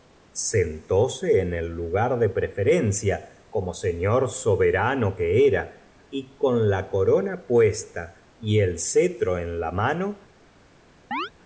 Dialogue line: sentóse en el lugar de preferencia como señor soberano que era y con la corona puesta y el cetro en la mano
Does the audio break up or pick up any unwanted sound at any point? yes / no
yes